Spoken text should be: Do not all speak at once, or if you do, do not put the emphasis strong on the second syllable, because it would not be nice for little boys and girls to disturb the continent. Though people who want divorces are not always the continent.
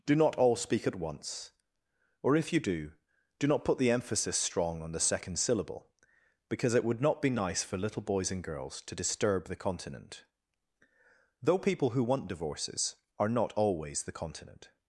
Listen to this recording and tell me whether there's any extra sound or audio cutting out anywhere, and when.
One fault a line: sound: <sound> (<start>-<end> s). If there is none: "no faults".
no faults